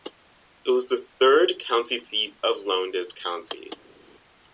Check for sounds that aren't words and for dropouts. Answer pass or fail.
pass